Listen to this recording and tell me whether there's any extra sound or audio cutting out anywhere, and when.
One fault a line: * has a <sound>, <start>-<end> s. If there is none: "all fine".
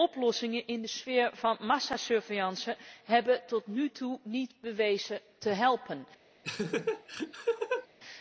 * has a laugh, 6.4-7.9 s